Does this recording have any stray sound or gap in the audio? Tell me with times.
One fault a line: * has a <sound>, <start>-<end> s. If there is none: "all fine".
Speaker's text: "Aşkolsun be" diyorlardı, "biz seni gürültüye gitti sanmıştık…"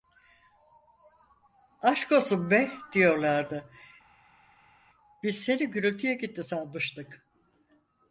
all fine